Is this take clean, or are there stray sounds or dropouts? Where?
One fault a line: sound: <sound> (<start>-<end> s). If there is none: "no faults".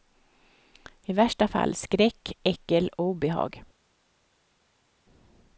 no faults